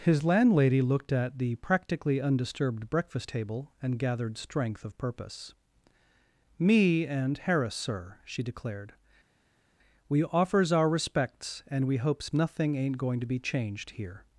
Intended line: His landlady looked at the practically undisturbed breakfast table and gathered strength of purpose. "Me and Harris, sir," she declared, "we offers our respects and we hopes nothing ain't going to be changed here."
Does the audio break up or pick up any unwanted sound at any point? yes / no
no